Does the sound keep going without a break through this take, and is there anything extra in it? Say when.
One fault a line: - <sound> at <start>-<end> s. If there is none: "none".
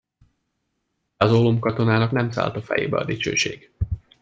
none